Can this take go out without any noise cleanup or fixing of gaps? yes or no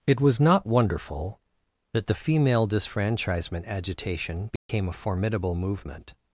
no